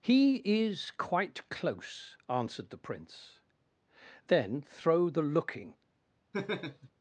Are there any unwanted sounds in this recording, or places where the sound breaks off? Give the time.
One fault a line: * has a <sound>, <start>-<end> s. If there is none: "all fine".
* has a laugh, 6.3-6.9 s